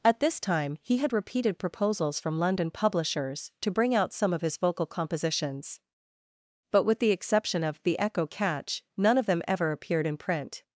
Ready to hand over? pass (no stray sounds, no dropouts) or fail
pass